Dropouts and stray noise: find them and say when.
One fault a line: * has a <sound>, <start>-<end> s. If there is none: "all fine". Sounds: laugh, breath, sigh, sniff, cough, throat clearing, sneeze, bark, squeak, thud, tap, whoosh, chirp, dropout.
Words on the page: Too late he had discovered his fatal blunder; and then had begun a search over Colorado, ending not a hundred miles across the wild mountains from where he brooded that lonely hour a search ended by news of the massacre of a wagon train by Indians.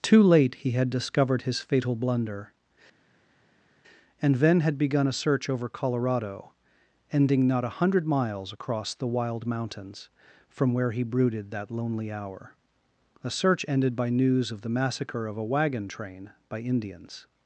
all fine